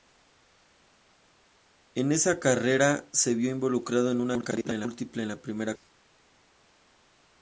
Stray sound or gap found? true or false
false